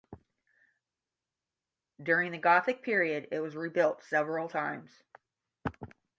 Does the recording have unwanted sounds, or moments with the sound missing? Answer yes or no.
no